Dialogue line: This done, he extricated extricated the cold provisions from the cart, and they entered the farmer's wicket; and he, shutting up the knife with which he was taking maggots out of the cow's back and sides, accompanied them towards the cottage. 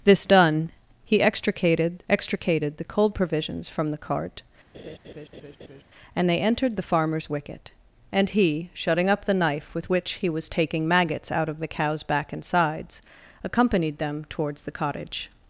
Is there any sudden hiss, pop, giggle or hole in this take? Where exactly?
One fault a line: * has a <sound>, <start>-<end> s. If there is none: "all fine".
* has a laugh, 4.7-5.8 s